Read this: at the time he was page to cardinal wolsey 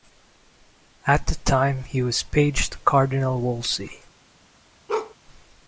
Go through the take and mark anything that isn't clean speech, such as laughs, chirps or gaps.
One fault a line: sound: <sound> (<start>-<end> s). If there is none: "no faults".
sound: bark (4.9-5.2 s)